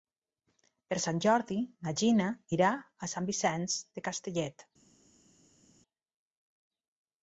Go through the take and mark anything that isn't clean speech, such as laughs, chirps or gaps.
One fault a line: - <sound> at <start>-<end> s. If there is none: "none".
none